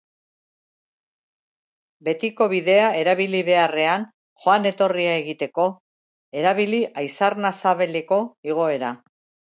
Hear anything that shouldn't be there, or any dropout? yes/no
no